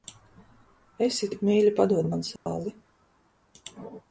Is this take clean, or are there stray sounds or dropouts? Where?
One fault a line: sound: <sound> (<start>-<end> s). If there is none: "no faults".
sound: dropout (2.4-2.5 s)